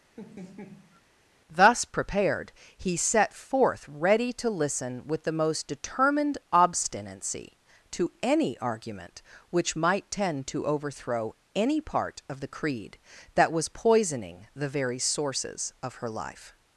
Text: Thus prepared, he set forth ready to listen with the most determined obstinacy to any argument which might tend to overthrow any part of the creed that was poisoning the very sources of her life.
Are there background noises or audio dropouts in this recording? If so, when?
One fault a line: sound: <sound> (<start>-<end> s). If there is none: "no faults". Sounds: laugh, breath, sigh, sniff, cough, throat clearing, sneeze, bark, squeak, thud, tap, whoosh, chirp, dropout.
sound: laugh (0.2-1.0 s)